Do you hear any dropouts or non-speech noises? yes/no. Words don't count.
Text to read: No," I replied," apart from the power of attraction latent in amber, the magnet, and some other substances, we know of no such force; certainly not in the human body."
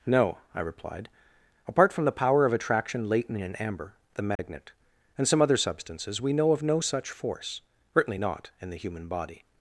yes